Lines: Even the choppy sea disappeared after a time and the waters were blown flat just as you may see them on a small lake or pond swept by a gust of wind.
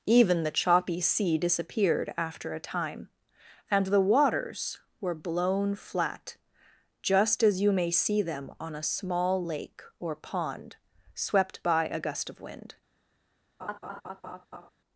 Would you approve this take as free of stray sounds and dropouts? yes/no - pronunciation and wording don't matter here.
no